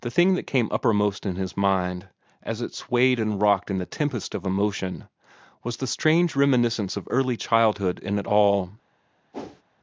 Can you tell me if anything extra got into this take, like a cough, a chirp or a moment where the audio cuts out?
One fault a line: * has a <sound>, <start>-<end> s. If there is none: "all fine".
* has a whoosh, 9.3-9.6 s